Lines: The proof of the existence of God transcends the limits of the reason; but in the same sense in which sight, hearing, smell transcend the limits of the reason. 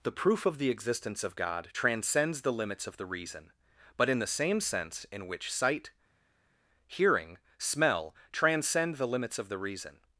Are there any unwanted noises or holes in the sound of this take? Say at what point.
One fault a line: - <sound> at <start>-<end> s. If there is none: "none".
none